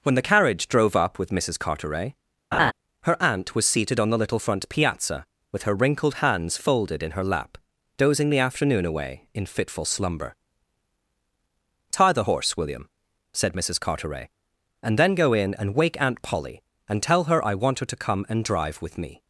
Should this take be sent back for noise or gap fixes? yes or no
yes